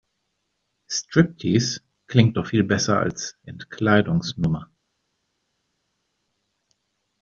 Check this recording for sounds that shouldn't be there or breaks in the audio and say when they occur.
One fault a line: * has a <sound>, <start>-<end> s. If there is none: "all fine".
all fine